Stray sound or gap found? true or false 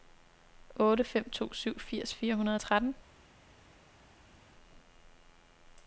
false